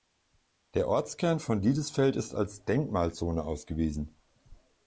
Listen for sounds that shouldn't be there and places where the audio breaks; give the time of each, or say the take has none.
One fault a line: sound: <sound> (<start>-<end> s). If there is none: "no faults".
no faults